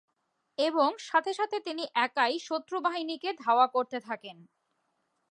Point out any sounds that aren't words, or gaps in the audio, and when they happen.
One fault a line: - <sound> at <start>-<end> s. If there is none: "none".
none